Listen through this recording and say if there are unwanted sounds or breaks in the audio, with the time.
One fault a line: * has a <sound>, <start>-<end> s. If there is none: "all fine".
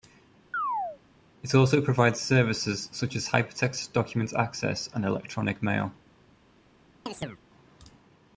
* has a chirp, 0.5-1.0 s
* has a chirp, 7.1-7.4 s